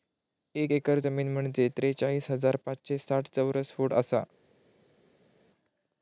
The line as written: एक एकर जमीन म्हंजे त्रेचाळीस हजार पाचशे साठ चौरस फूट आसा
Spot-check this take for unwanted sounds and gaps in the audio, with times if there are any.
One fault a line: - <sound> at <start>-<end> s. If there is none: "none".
none